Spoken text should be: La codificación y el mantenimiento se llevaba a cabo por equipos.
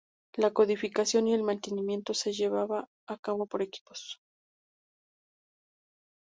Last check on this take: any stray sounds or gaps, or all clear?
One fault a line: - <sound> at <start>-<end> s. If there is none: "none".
none